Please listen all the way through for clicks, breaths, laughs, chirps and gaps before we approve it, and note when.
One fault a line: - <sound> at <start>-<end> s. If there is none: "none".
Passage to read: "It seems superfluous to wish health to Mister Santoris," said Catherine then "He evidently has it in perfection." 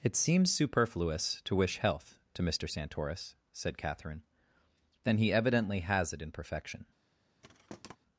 - thud at 7.4-8.0 s